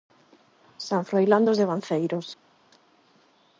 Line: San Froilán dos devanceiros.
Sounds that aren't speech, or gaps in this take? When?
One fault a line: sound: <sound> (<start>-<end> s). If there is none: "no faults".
no faults